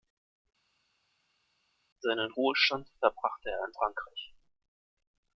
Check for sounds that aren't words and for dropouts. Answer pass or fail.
pass